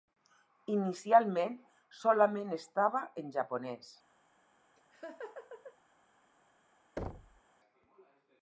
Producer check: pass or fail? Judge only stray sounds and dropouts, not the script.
fail